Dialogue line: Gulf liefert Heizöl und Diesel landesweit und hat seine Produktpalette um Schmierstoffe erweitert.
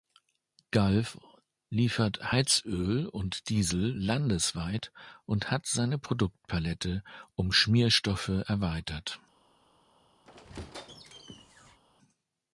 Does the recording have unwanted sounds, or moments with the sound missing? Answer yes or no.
yes